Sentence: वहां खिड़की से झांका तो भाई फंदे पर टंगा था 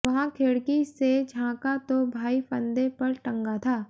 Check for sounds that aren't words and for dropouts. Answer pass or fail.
pass